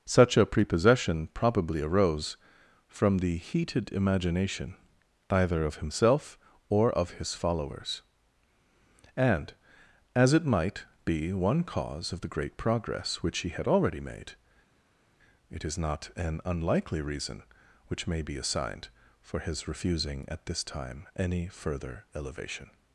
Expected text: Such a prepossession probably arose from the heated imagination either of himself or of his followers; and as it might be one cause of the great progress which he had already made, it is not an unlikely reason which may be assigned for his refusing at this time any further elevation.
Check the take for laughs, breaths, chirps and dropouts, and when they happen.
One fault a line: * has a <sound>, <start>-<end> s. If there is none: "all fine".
all fine